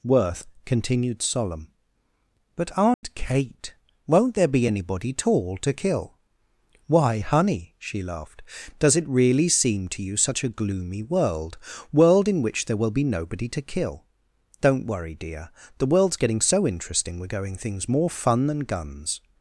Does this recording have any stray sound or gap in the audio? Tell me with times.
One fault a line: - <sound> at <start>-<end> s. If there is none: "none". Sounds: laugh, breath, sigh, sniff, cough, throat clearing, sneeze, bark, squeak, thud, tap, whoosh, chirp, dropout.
- dropout at 2.9-3.0 s